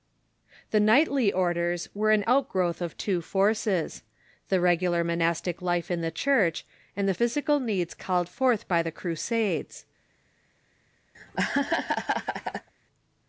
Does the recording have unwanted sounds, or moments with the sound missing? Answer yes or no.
yes